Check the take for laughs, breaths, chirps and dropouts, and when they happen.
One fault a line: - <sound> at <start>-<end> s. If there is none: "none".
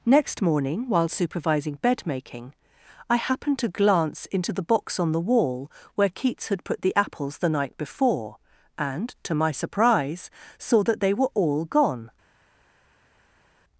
none